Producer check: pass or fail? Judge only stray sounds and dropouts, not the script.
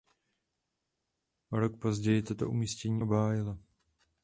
pass